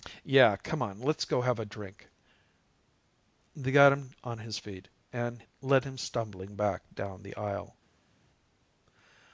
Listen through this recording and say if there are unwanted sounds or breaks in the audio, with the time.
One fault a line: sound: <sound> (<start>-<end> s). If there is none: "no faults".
no faults